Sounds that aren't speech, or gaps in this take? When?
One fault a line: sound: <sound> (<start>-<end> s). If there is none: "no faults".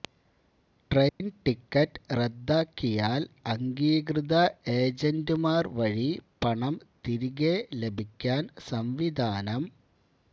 sound: dropout (1.1-1.2 s)